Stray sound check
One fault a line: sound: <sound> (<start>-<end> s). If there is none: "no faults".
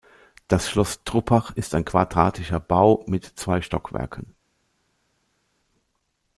no faults